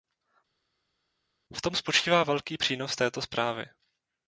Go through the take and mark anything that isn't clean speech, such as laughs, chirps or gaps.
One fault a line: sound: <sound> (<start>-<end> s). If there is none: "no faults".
no faults